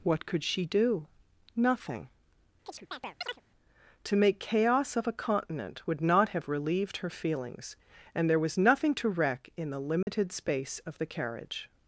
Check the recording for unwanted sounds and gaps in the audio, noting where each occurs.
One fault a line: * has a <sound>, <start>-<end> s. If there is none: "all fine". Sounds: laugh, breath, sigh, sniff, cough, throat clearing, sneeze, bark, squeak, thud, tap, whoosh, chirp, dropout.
* has a chirp, 2.7-3.4 s
* has a dropout, 10.0-10.1 s